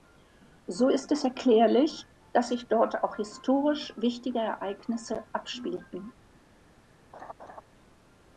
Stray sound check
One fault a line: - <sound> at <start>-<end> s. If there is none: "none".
- laugh at 7.1-7.6 s